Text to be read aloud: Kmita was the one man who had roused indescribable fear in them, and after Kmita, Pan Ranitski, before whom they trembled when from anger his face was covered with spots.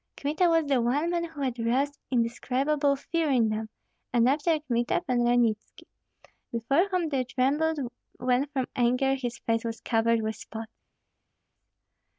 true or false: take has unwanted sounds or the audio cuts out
false